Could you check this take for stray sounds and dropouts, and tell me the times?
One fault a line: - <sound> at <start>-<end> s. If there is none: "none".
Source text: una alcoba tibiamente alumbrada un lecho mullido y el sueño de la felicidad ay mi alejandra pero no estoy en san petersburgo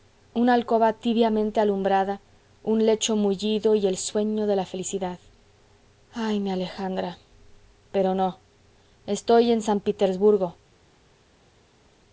none